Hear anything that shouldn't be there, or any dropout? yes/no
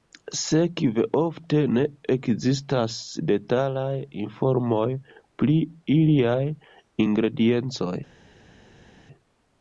no